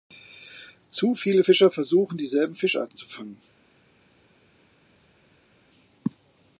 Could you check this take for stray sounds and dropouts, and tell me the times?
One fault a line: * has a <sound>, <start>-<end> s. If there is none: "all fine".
all fine